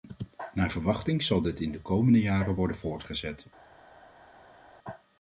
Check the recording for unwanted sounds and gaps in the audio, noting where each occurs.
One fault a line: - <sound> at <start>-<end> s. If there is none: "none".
none